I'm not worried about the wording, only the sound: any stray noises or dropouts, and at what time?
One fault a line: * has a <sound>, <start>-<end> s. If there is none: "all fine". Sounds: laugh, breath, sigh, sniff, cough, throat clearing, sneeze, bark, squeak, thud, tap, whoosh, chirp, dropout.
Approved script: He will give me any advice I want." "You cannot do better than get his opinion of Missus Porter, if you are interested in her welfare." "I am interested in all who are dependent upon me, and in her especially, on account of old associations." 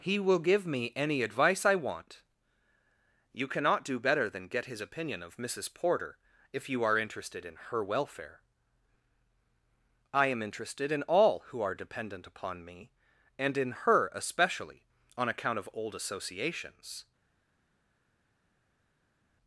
all fine